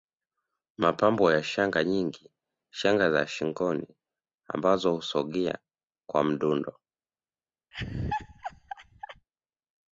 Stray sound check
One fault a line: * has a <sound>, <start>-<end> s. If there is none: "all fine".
* has a laugh, 7.7-9.3 s